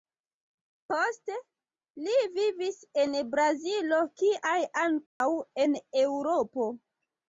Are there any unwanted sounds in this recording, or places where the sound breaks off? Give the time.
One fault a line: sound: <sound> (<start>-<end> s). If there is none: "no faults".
sound: dropout (5.1-5.2 s)